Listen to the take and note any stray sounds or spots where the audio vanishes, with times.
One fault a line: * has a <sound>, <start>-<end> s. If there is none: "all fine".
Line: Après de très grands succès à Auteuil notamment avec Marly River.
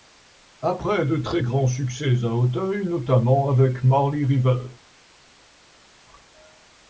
all fine